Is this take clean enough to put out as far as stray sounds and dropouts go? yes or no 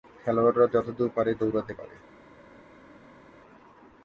yes